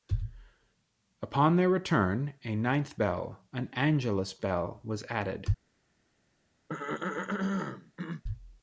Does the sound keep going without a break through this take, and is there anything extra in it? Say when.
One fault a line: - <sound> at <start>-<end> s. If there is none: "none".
- throat clearing at 6.7-8.2 s